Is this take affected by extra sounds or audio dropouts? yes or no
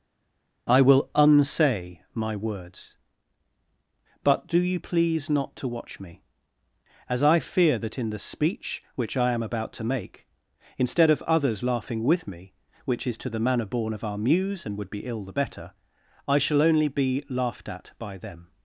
no